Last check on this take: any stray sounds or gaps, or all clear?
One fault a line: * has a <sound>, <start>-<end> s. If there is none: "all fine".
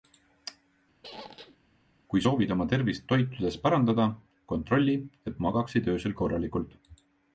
* has a squeak, 1.0-1.6 s